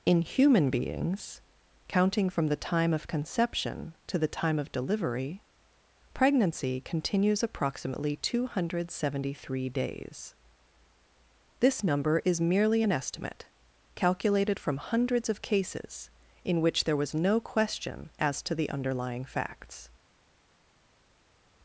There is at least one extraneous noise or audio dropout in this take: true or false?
false